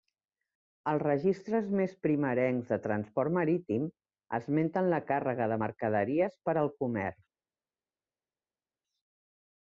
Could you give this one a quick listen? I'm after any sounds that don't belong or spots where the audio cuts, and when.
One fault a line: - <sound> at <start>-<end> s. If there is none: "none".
none